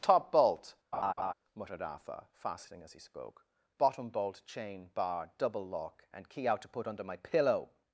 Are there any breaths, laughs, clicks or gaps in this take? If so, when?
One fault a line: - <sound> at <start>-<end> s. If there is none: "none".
- laugh at 0.9-1.3 s